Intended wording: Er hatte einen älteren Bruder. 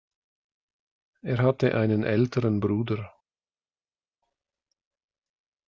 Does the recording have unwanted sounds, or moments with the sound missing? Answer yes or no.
no